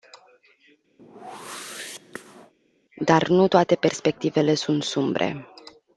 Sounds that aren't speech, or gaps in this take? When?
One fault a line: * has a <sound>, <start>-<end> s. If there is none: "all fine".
* has a whoosh, 1.0-2.5 s